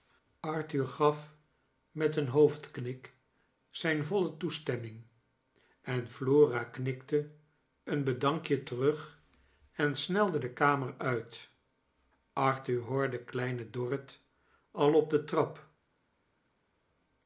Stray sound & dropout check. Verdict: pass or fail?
pass